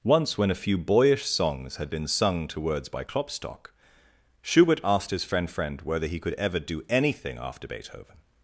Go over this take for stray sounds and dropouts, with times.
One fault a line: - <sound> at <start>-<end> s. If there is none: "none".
none